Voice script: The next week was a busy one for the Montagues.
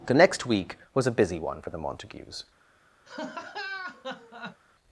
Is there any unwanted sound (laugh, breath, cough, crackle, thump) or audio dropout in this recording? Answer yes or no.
yes